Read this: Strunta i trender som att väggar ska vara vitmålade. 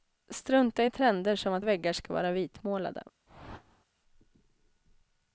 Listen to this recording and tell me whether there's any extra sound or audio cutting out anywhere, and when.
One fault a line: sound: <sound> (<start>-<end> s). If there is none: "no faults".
sound: whoosh (3.3-3.9 s)